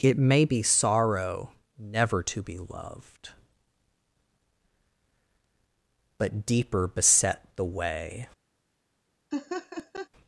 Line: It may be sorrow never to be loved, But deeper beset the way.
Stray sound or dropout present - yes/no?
yes